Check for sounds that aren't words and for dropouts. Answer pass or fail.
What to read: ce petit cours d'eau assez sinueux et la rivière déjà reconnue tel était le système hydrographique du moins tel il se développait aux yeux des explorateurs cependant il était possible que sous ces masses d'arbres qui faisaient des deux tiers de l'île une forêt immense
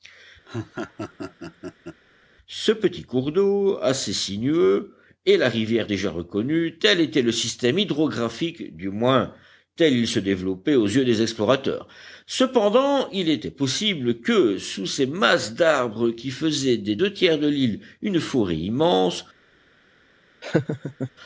fail